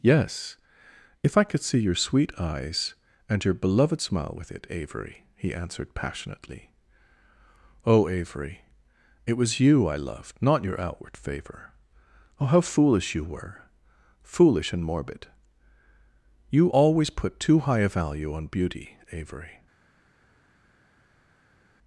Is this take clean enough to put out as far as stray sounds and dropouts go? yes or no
yes